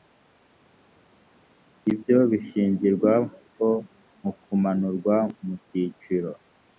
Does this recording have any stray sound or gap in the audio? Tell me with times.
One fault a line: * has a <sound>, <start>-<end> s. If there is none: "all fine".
all fine